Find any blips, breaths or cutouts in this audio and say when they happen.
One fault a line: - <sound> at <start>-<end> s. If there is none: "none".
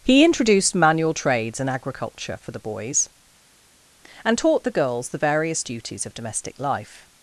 none